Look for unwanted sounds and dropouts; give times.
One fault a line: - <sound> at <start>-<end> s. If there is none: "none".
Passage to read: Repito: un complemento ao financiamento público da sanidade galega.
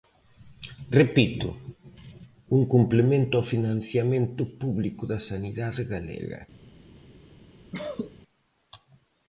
- cough at 7.7-8.2 s